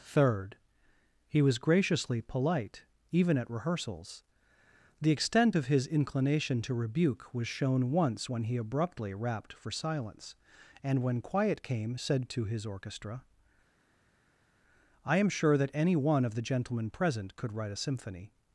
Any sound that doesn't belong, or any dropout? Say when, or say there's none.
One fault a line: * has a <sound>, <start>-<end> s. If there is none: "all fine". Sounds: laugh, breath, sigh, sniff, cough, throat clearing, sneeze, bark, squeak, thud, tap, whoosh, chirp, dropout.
all fine